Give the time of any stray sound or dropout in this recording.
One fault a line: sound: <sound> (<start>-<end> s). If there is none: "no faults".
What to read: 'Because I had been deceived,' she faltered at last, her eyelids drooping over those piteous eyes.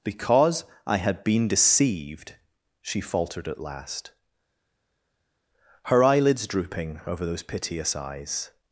no faults